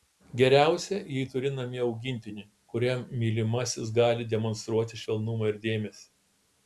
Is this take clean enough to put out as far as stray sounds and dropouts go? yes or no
yes